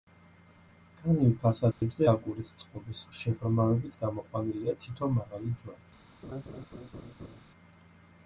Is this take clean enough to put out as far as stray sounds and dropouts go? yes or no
no